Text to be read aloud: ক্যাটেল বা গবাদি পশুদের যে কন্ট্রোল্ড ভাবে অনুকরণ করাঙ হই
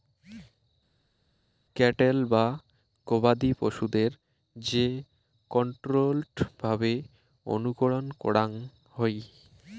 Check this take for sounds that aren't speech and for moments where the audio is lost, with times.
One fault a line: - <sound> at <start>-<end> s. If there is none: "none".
none